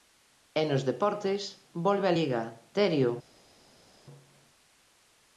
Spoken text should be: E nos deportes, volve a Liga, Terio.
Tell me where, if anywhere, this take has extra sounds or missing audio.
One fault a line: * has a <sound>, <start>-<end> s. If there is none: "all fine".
all fine